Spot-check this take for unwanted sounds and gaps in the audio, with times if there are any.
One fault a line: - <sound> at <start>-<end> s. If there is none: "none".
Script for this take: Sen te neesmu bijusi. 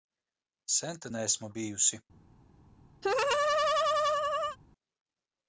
- laugh at 3.0-4.6 s